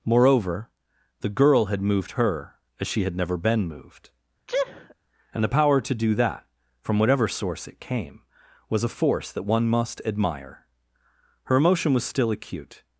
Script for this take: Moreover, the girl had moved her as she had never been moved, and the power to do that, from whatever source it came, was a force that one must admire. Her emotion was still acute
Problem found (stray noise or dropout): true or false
true